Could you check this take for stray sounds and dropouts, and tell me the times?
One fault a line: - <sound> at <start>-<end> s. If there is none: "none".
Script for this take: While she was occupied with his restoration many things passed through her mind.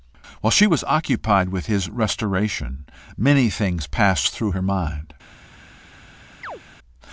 - chirp at 6.4-6.6 s